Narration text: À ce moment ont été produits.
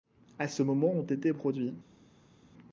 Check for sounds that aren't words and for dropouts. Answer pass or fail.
pass